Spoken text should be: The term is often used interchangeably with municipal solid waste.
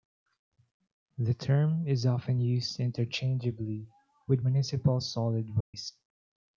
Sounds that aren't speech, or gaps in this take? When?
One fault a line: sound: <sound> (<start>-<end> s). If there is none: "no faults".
sound: dropout (5.6-5.7 s)